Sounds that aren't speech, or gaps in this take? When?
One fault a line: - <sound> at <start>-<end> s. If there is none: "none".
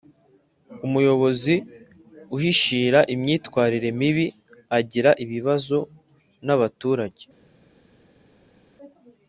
none